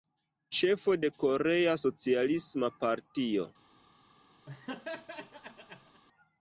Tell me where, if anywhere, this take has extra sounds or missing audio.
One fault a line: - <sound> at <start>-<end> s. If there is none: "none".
- laugh at 4.5-6.0 s